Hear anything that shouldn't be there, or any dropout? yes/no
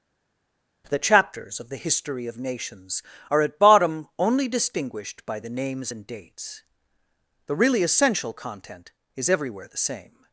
no